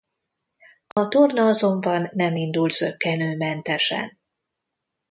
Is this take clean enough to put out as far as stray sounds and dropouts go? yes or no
no